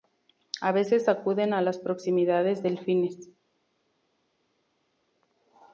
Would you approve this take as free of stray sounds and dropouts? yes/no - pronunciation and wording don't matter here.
yes